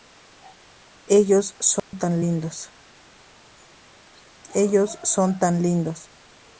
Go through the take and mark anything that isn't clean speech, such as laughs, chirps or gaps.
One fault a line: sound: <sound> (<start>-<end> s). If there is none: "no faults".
sound: dropout (1.8-1.9 s)